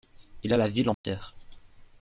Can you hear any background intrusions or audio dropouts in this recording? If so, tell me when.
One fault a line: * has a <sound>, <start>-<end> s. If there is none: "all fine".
* has a dropout, 0.9-1.0 s